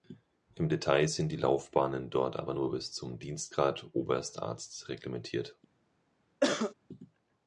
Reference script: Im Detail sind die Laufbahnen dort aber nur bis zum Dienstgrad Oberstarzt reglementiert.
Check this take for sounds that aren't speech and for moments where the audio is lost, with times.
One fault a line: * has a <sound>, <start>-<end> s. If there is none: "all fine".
* has a cough, 6.4-6.7 s